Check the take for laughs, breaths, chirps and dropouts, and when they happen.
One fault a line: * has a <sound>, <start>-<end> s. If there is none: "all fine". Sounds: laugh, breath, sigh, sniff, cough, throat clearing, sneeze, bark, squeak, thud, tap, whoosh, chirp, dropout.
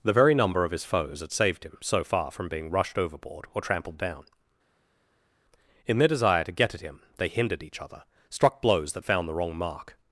all fine